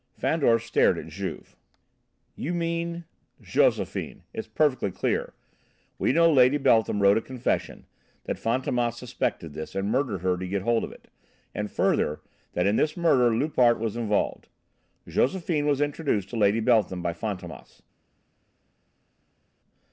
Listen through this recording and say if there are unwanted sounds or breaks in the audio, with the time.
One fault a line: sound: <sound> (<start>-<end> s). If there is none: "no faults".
no faults